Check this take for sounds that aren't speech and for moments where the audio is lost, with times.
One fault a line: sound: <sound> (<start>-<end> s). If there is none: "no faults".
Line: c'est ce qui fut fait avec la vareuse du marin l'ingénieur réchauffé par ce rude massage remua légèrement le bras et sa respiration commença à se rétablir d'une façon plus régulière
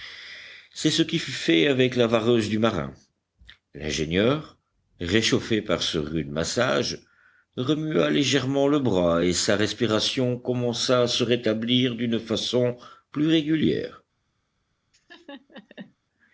sound: laugh (14.9-16.0 s)